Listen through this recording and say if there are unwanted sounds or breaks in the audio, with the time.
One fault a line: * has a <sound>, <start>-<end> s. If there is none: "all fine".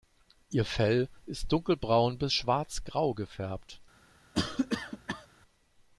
* has a cough, 4.3-5.3 s